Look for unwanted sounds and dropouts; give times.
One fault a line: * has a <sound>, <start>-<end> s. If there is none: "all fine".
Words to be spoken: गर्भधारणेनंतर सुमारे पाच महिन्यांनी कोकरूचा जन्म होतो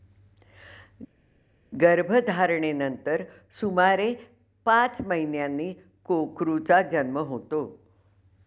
all fine